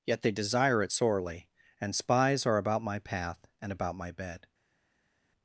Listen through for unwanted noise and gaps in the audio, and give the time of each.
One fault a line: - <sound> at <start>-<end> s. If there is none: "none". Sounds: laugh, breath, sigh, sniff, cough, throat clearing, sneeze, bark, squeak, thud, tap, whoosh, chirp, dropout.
none